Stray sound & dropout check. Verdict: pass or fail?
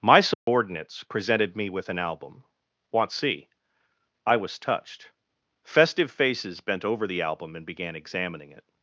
fail